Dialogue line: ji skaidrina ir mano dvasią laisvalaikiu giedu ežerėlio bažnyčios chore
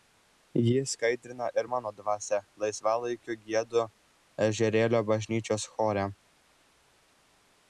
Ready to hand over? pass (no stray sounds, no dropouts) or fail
pass